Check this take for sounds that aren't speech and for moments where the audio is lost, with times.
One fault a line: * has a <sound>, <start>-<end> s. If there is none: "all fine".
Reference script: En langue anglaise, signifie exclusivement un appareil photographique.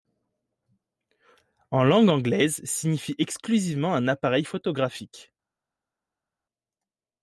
all fine